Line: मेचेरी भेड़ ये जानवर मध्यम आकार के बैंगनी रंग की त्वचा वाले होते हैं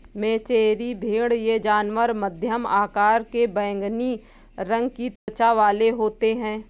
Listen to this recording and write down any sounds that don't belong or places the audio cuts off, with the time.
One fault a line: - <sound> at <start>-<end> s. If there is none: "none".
- dropout at 5.2-5.3 s